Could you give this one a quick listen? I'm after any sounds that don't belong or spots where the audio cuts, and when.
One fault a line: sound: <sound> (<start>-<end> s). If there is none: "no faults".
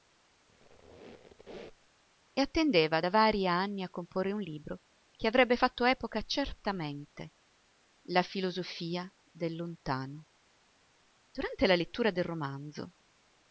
sound: squeak (0.5-1.9 s)